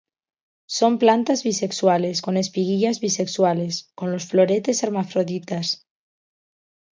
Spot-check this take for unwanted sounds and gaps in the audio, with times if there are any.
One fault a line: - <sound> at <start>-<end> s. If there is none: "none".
none